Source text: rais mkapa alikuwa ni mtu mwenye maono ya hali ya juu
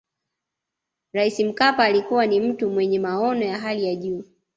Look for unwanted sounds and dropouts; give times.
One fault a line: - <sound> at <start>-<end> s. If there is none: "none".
none